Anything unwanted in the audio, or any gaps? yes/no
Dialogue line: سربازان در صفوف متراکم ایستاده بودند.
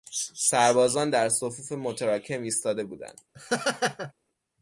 yes